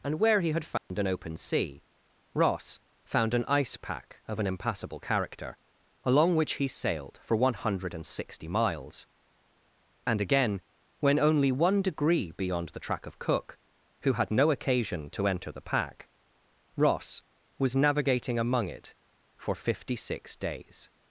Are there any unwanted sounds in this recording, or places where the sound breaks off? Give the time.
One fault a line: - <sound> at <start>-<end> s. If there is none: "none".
- dropout at 0.8-0.9 s